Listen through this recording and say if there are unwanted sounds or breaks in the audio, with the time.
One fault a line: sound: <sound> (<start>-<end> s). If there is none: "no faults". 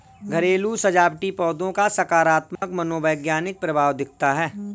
sound: dropout (2.6-2.6 s)